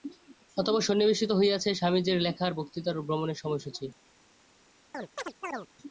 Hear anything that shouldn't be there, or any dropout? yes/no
yes